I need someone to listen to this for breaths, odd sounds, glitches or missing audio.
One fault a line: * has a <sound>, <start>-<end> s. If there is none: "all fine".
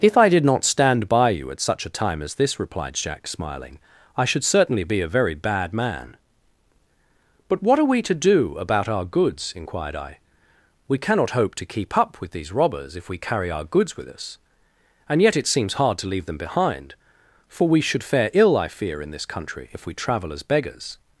all fine